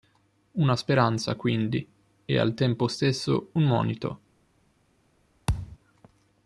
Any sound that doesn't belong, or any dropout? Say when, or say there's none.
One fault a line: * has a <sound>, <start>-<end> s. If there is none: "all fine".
* has a thud, 5.5-5.8 s